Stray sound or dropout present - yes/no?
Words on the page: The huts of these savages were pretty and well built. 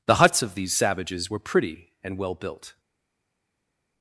no